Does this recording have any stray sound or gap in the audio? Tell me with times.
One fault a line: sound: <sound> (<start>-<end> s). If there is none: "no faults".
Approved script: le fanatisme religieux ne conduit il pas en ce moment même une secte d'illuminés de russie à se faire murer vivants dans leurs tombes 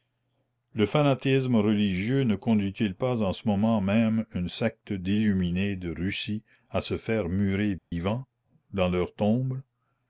sound: dropout (7.8-7.9 s)